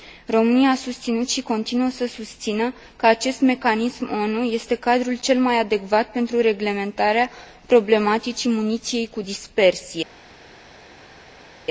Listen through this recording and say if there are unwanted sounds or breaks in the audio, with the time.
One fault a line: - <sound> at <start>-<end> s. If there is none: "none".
none